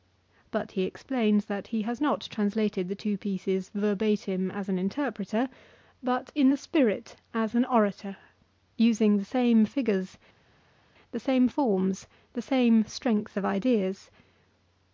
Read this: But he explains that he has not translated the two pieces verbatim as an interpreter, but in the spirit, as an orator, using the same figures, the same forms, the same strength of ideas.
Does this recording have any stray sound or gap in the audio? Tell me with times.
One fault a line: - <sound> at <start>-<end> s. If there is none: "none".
none